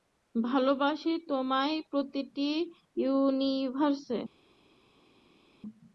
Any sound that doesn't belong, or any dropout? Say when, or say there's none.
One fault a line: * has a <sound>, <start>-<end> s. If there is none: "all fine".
all fine